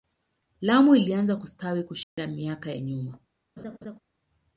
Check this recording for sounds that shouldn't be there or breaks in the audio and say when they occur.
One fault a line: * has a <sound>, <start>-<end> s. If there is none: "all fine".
* has a dropout, 2.0-2.2 s
* has a laugh, 3.6-4.0 s